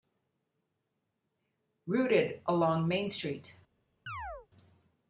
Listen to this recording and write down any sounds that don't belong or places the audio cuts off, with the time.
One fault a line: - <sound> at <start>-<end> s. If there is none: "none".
- chirp at 4.1-4.5 s